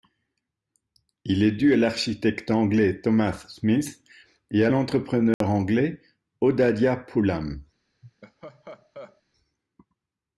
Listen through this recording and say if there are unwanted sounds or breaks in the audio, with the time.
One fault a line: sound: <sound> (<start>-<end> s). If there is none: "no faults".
sound: dropout (5.3-5.4 s)
sound: laugh (8.0-9.2 s)